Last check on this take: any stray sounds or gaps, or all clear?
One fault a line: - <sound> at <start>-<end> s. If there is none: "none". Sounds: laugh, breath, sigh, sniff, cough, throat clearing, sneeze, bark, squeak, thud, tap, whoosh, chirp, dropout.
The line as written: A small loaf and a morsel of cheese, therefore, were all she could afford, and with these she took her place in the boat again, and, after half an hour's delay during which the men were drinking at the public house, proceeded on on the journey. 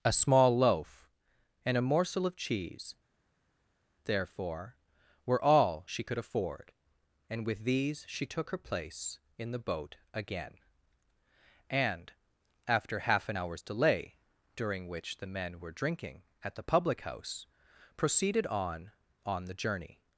none